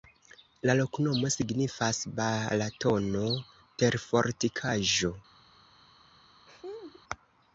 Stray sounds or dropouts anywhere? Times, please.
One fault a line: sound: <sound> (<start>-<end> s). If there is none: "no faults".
sound: laugh (6.5-7.0 s)